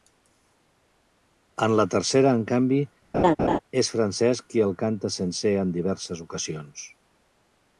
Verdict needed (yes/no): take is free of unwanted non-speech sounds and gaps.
no